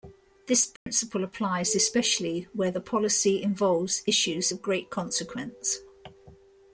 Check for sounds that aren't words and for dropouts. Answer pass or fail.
fail